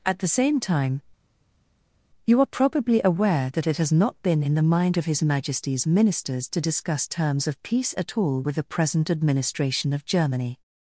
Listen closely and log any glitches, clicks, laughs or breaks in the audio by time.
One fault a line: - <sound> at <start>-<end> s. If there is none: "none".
none